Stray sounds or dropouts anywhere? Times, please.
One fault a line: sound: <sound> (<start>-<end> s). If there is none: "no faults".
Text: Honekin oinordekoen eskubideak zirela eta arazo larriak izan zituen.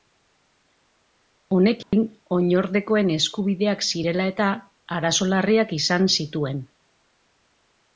sound: dropout (1.8-1.9 s)